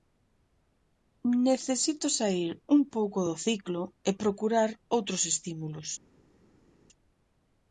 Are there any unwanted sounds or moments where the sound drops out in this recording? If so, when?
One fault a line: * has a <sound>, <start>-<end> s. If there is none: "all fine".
all fine